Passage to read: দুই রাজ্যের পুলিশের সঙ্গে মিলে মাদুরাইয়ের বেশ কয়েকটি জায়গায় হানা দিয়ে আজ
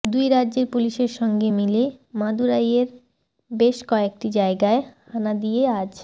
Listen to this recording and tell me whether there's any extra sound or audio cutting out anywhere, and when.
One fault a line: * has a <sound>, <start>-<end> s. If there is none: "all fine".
all fine